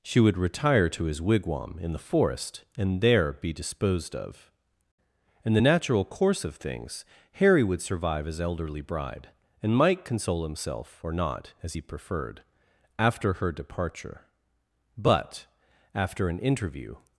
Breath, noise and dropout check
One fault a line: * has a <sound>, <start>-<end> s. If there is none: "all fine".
all fine